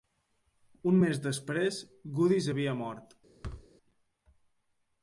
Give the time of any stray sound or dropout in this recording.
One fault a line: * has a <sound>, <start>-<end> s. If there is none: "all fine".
* has a thud, 3.4-3.7 s